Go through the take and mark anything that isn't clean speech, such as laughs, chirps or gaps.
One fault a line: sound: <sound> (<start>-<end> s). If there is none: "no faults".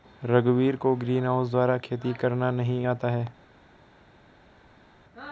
no faults